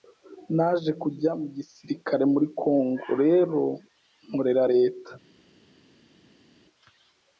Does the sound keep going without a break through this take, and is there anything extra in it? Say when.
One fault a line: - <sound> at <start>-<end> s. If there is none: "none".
none